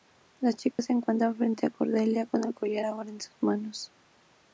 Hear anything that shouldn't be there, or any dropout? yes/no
yes